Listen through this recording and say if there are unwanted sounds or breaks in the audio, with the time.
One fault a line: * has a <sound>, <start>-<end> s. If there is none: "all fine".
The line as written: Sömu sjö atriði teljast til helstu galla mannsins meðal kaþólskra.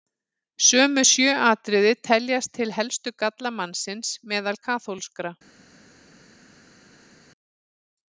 all fine